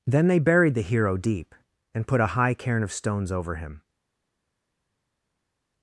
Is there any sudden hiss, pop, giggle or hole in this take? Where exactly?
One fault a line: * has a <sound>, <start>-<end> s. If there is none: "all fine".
all fine